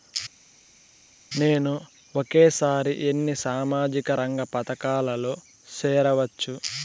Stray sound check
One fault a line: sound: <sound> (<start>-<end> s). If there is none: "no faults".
no faults